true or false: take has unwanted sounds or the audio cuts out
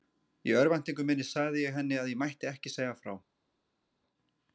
false